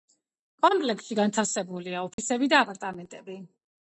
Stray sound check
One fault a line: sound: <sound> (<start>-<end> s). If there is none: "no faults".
sound: dropout (2.1-2.2 s)